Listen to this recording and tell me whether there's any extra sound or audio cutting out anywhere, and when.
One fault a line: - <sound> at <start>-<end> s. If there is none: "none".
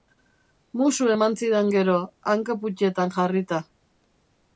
none